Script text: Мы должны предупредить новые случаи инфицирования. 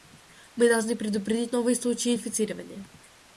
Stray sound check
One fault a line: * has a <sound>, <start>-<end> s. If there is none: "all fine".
all fine